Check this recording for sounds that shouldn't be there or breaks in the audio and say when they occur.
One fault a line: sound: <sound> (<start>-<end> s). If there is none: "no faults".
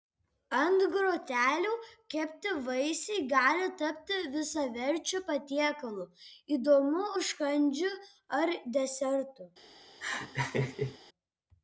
sound: laugh (10.0-11.0 s)